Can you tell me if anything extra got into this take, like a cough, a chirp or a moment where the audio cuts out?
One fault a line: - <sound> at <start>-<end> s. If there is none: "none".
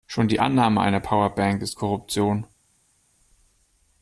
none